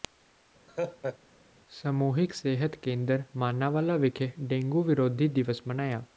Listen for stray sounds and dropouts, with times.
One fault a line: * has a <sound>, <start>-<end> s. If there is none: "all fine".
* has a laugh, 0.7-1.2 s